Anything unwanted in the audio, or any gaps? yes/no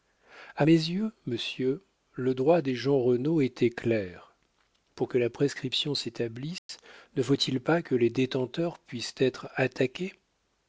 yes